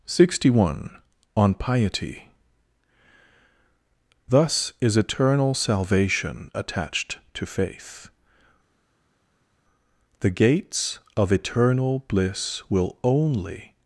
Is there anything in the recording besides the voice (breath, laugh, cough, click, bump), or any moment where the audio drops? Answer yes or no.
no